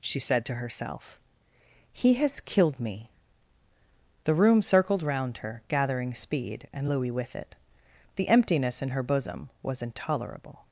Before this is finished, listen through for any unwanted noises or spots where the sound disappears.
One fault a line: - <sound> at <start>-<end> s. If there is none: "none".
none